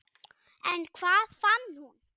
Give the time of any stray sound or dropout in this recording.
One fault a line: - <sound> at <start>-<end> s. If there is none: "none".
none